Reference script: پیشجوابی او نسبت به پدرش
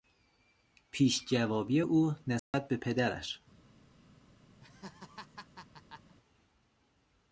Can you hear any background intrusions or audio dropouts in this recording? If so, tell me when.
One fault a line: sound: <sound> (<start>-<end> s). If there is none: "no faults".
sound: dropout (2.4-2.5 s)
sound: laugh (4.6-6.1 s)